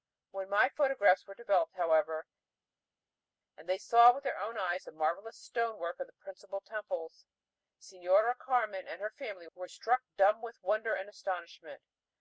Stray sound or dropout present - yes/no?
no